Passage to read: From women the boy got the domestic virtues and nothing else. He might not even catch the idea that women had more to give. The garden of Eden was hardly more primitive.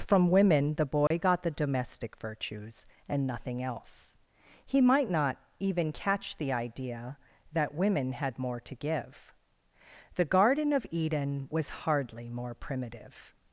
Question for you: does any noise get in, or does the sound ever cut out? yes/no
yes